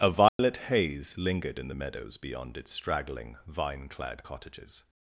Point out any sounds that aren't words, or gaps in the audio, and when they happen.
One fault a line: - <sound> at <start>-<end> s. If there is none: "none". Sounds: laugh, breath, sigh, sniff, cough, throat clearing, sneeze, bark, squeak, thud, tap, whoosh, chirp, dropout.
- dropout at 0.3-0.4 s